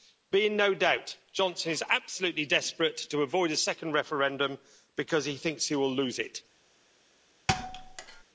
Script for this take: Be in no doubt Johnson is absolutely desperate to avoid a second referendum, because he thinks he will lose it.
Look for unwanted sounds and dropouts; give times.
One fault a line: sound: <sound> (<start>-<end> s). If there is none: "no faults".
sound: thud (7.5-8.2 s)